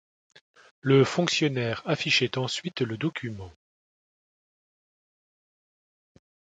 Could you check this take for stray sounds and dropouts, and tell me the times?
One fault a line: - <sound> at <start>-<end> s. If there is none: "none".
none